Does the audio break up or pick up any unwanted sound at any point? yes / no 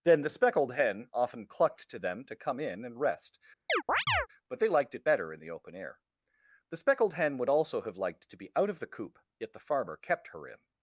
yes